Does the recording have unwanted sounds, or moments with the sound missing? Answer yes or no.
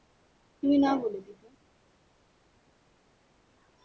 no